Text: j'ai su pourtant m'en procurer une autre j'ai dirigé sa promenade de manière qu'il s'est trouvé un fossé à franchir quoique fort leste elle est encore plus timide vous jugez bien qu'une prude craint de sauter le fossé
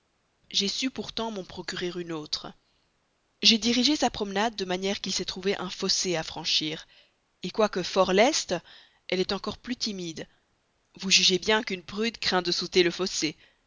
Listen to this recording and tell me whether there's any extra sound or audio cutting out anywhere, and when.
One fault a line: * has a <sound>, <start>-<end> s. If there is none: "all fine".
all fine